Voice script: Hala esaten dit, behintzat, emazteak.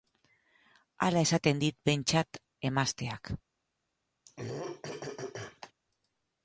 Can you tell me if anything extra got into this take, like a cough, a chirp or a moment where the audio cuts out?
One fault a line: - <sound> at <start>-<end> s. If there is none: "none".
- throat clearing at 4.3-5.7 s